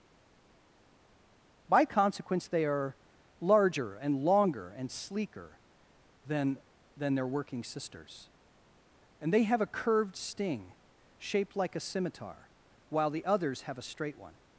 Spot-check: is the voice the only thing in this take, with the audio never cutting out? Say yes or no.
yes